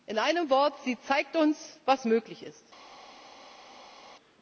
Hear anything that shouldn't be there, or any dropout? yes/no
no